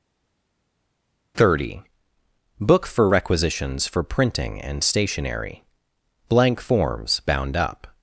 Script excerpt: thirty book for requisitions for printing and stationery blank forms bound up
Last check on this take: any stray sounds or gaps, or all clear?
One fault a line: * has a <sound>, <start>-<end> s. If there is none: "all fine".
all fine